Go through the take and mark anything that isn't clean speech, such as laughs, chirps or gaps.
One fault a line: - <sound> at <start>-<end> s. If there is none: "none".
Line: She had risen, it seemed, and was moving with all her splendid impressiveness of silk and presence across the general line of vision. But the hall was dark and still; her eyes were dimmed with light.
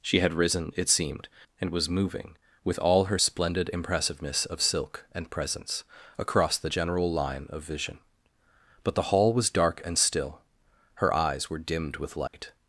- dropout at 12.3-12.3 s